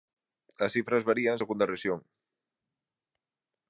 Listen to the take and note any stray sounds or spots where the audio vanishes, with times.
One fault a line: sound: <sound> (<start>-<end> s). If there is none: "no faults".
no faults